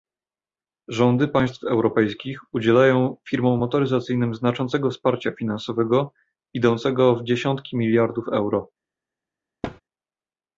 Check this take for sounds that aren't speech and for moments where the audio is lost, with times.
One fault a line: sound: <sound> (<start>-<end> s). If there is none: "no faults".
sound: thud (9.6-9.8 s)